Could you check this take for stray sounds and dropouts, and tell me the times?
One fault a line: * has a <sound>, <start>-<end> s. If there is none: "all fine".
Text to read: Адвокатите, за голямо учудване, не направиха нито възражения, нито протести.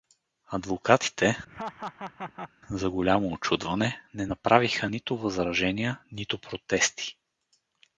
* has a laugh, 1.5-2.5 s